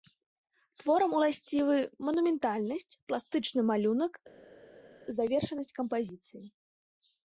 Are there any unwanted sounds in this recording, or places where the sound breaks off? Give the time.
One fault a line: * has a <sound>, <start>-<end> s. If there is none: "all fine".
all fine